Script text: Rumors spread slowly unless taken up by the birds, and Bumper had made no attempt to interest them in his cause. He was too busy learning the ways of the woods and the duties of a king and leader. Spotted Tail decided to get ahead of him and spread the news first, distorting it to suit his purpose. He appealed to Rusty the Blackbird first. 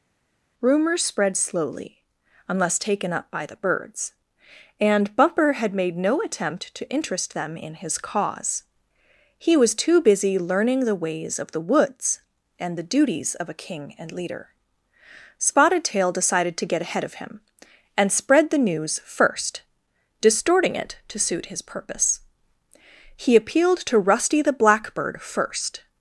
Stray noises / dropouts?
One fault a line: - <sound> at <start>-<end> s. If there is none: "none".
none